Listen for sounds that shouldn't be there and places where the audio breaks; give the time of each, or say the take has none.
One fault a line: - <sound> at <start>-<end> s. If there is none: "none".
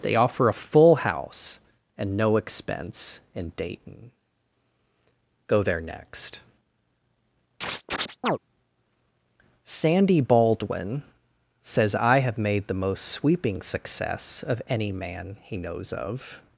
- chirp at 7.6-8.4 s